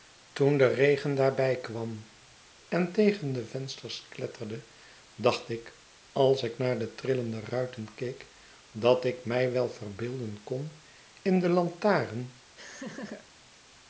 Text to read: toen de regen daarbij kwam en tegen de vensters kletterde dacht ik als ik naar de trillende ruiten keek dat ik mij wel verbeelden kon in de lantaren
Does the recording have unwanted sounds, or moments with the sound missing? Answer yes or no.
yes